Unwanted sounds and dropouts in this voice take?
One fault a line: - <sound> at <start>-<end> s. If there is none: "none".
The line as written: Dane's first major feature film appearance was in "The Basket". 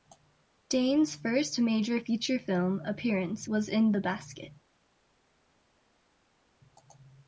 none